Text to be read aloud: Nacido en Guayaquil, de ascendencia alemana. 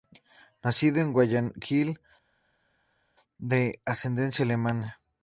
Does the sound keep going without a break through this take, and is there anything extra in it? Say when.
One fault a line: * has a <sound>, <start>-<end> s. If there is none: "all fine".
all fine